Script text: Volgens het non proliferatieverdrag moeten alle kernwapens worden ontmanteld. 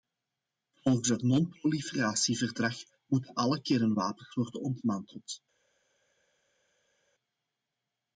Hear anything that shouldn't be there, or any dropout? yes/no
no